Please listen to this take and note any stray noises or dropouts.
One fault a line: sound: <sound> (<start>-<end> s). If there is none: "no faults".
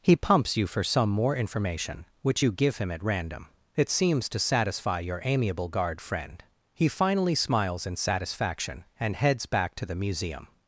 no faults